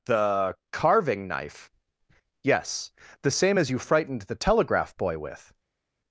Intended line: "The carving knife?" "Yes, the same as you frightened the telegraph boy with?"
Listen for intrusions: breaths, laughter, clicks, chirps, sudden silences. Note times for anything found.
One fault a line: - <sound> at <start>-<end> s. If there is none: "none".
none